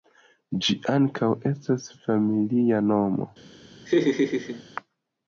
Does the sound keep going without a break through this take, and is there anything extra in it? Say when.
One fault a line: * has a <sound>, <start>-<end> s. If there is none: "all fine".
* has a laugh, 3.9-4.6 s